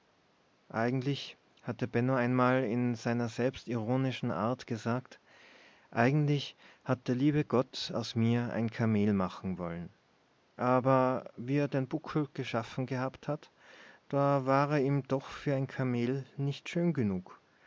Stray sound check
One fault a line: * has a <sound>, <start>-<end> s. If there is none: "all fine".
all fine